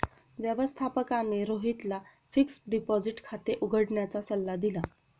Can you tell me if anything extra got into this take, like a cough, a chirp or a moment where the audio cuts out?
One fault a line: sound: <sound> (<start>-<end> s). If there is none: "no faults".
no faults